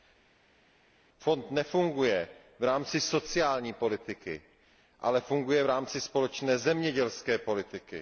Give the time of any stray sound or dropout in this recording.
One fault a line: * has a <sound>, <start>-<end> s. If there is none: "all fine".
all fine